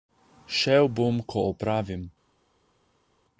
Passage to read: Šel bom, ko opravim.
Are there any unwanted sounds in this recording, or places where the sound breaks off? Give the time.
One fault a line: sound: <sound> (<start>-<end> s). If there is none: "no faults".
no faults